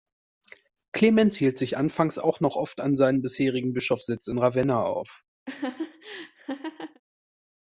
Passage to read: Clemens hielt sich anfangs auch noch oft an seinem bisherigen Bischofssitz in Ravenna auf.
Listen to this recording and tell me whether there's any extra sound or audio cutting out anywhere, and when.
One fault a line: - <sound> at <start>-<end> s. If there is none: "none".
- laugh at 5.5-7.0 s